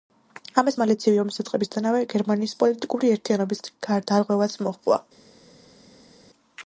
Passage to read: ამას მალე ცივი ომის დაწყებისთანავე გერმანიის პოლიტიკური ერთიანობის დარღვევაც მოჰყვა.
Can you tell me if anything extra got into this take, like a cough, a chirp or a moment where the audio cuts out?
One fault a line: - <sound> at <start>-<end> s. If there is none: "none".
none